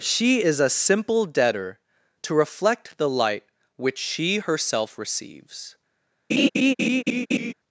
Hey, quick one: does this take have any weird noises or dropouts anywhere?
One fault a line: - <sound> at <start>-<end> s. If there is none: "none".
- laugh at 6.3-7.5 s